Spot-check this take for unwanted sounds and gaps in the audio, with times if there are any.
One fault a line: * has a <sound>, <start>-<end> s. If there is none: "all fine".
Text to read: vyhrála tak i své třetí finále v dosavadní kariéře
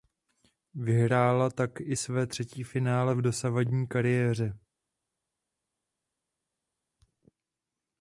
all fine